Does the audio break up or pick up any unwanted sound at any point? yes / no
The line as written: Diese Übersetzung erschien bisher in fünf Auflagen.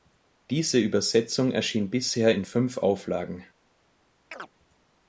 yes